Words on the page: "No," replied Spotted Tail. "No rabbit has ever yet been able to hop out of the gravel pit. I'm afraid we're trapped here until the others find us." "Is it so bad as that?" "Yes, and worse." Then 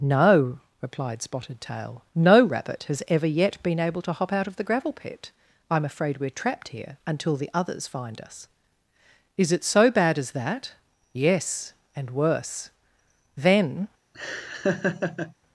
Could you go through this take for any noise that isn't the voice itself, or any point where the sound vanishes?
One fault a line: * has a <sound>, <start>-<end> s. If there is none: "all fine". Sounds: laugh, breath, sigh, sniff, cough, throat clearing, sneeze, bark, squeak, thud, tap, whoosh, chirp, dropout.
* has a laugh, 14.1-15.3 s